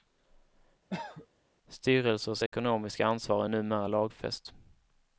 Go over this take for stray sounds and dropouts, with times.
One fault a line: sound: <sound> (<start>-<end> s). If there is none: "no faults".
sound: cough (0.9-1.3 s)
sound: dropout (2.5-2.5 s)